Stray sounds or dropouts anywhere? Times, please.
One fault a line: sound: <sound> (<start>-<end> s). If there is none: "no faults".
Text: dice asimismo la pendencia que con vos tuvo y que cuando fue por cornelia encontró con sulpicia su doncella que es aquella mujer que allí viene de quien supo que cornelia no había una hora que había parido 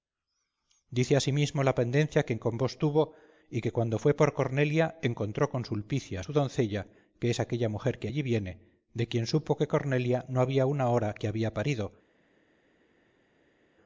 no faults